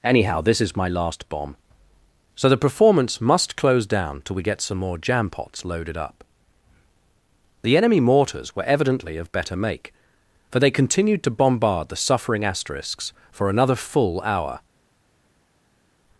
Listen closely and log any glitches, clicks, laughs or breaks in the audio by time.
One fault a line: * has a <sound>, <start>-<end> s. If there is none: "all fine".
all fine